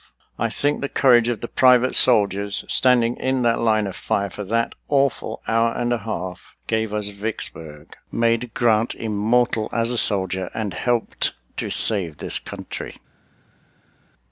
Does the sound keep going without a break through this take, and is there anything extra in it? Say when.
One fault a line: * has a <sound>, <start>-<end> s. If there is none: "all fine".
all fine